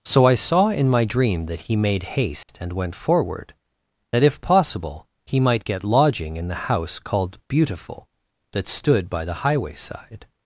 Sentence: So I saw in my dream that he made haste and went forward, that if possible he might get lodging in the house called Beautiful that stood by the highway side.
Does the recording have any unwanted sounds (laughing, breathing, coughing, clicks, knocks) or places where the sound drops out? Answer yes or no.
yes